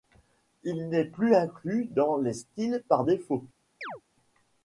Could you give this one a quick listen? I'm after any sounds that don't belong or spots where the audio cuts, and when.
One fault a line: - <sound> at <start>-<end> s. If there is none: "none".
- chirp at 3.8-4.0 s